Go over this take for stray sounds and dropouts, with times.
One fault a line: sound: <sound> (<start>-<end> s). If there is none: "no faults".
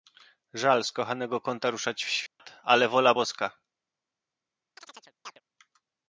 sound: dropout (2.3-2.4 s)
sound: chirp (4.8-5.4 s)